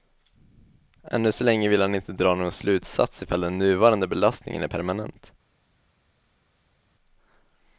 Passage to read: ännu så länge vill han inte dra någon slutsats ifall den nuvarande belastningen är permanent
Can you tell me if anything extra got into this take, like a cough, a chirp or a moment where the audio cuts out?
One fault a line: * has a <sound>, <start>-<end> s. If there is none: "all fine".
all fine